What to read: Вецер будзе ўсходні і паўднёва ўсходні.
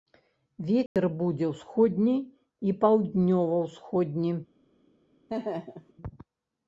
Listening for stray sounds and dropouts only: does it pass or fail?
fail